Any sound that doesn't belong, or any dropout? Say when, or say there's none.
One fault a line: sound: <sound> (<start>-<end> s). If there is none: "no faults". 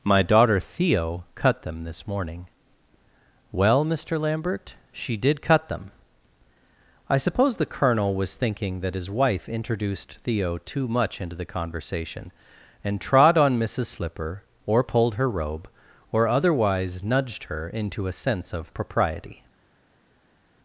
no faults